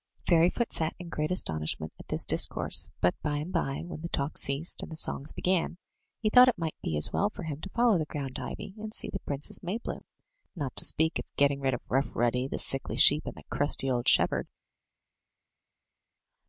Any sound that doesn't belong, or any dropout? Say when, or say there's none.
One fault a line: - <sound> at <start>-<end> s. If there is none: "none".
none